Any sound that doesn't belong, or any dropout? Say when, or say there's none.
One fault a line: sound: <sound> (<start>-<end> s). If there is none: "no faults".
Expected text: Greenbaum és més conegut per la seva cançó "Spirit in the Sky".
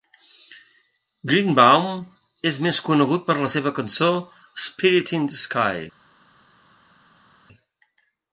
no faults